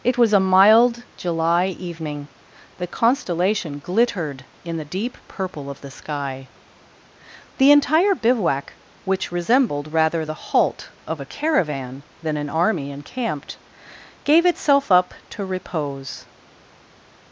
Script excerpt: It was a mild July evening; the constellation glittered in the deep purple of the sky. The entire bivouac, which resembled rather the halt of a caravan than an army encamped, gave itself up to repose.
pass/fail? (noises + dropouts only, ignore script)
pass